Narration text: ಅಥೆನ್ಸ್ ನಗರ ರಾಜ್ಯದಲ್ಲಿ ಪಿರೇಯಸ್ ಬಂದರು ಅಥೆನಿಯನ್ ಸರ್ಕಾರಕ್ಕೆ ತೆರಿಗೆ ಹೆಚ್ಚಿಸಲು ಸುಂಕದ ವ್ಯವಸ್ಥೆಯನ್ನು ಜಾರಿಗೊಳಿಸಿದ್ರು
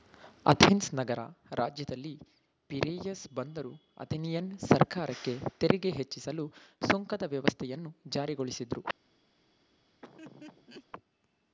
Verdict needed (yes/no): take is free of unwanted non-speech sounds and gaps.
no